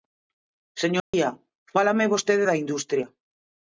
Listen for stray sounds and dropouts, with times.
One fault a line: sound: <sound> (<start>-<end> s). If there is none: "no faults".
sound: dropout (1.0-1.1 s)